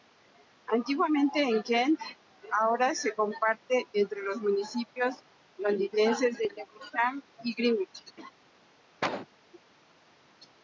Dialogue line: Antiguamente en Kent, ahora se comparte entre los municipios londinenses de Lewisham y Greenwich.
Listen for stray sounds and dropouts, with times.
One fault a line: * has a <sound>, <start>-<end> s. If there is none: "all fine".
* has a laugh, 8.2-8.3 s
* has a cough, 9.0-9.3 s